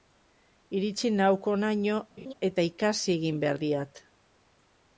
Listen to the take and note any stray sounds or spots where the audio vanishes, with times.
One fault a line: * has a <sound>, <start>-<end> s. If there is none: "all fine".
* has a laugh, 2.2-2.3 s